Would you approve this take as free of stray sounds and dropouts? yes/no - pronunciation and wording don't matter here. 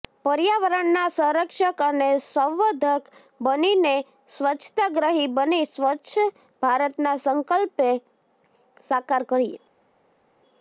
yes